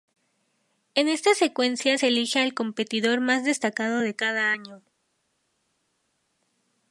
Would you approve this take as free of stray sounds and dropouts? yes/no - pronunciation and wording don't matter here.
yes